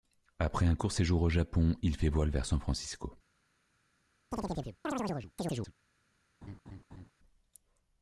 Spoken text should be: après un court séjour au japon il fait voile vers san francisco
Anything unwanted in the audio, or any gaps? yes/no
yes